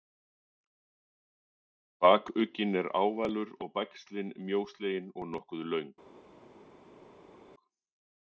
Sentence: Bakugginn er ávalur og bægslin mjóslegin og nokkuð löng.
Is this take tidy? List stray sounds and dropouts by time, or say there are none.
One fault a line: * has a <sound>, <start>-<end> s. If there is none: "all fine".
all fine